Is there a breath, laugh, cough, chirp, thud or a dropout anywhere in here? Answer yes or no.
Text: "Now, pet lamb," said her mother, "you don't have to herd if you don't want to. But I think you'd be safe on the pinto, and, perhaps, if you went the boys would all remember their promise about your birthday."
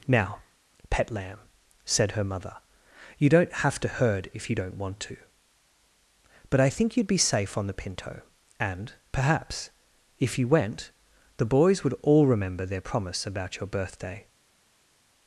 no